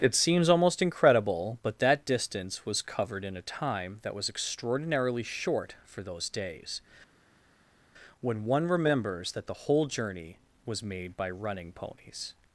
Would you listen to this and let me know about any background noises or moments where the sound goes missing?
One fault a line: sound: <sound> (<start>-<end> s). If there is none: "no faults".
no faults